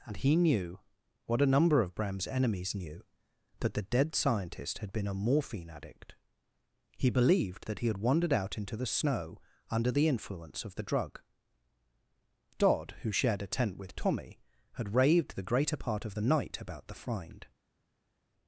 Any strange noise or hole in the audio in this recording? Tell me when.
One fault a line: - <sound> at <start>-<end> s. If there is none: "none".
none